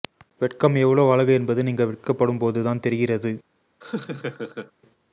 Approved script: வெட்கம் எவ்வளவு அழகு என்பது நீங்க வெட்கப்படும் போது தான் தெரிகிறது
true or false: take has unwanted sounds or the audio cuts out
true